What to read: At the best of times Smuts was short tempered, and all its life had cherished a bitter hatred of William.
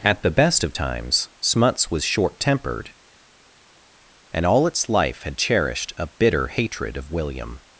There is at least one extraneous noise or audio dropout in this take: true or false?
false